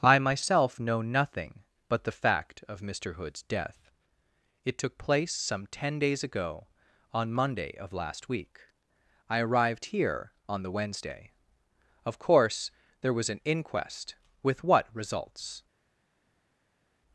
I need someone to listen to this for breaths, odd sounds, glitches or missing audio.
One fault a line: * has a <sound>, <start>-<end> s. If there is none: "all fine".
all fine